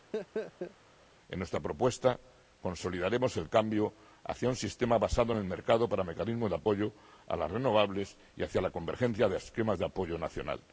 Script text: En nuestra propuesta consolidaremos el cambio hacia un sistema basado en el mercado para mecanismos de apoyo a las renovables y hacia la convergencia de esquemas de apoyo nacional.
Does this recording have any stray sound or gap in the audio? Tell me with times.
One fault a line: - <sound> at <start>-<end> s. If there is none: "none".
- laugh at 0.1-0.8 s